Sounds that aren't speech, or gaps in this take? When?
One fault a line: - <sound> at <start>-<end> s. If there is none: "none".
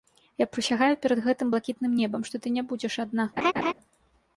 - laugh at 3.4-3.7 s